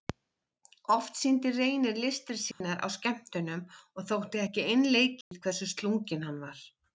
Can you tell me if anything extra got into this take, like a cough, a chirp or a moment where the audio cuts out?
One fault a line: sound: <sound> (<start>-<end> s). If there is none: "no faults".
sound: dropout (2.5-2.6 s)
sound: dropout (5.2-5.3 s)